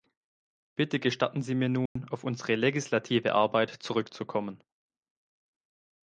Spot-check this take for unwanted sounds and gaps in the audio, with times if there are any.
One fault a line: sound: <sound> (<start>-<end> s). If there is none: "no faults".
sound: dropout (1.9-2.0 s)